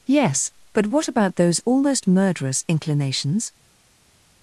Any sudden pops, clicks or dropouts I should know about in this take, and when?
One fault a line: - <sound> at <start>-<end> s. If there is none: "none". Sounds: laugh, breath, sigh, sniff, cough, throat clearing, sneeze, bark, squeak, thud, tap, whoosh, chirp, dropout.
none